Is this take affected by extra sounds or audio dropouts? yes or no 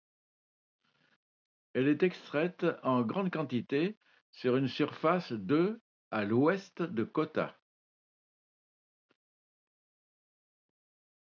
no